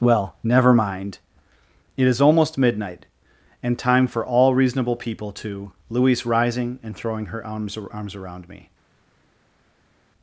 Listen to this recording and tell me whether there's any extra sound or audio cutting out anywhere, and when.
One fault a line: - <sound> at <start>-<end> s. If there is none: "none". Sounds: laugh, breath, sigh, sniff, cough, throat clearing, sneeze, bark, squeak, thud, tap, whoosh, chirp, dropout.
none